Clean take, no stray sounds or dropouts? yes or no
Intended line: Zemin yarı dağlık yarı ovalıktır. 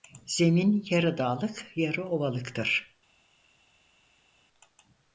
yes